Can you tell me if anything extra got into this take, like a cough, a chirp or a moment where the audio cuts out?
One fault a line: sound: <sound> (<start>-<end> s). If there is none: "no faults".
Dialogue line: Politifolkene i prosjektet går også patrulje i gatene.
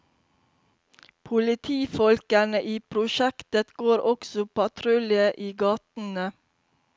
no faults